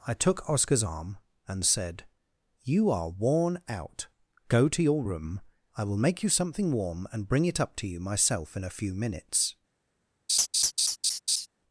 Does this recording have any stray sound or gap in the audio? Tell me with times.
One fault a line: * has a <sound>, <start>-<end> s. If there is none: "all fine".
* has a laugh, 10.3-11.5 s